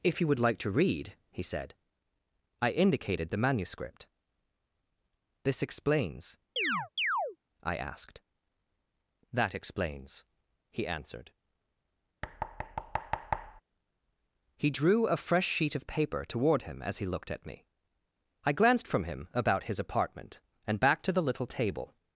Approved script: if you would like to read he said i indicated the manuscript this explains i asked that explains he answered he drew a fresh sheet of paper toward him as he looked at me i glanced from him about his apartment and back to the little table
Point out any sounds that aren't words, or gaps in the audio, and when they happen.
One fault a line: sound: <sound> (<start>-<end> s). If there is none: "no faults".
sound: chirp (6.6-7.4 s)
sound: thud (12.2-13.6 s)